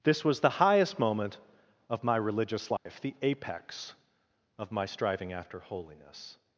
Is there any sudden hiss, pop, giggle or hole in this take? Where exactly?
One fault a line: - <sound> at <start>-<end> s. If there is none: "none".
- dropout at 2.8-2.9 s